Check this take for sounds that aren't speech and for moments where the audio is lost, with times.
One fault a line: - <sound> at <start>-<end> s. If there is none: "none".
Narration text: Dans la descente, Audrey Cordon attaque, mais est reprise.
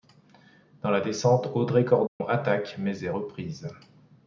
- dropout at 2.1-2.2 s